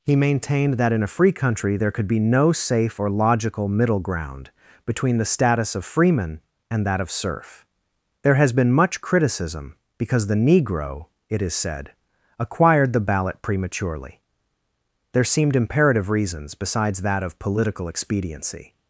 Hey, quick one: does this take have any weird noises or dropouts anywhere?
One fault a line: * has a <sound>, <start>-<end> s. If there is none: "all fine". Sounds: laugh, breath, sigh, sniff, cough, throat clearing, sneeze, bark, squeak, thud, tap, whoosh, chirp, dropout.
all fine